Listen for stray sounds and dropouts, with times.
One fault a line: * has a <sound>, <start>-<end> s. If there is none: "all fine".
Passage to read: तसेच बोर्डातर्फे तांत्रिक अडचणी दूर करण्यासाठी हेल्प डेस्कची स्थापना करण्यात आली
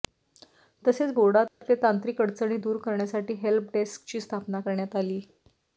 * has a dropout, 1.5-1.6 s